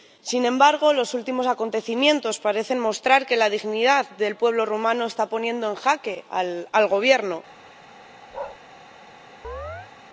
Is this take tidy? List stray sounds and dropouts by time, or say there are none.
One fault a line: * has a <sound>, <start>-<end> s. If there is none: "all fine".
* has a bark, 8.3-8.6 s
* has a chirp, 9.4-9.9 s